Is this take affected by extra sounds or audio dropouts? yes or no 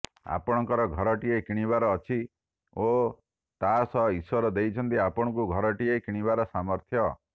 no